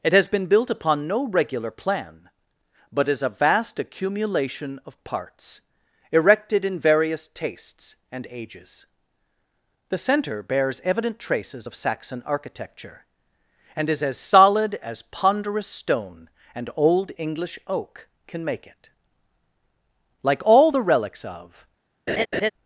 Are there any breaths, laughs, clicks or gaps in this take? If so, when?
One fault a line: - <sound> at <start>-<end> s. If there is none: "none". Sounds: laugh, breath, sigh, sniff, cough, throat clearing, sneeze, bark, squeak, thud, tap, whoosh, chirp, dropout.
- laugh at 22.1-22.5 s